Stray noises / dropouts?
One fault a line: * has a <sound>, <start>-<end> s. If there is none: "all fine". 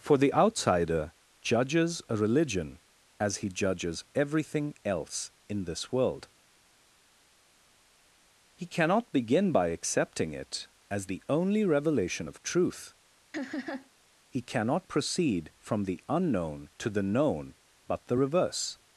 * has a laugh, 13.3-13.9 s